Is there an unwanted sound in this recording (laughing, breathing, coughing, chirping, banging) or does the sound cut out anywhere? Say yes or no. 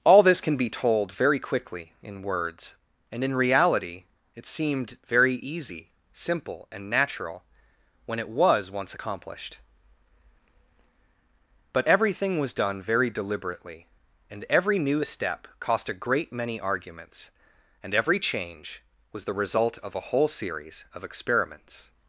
no